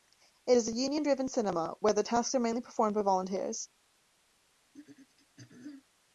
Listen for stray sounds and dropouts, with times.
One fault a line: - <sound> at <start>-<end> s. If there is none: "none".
- throat clearing at 4.7-5.8 s